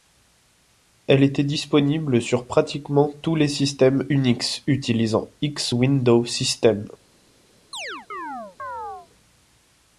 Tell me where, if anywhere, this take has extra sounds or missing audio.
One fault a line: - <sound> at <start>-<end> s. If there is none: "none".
- chirp at 7.7-9.1 s